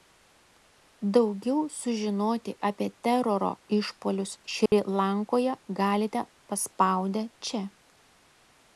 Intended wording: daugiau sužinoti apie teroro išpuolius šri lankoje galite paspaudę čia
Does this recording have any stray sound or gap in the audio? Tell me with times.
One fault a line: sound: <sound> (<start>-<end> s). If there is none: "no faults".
sound: dropout (4.7-4.7 s)